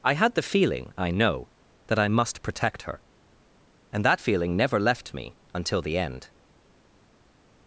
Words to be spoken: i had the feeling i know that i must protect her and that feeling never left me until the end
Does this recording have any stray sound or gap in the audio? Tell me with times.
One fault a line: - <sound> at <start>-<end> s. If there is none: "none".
none